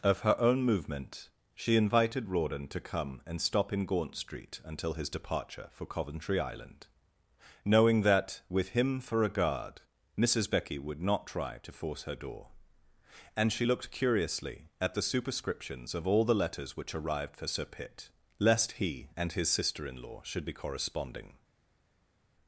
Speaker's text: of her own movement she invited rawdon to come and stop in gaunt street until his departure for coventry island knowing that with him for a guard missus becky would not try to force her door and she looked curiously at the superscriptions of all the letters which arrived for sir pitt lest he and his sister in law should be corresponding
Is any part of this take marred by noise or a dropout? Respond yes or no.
no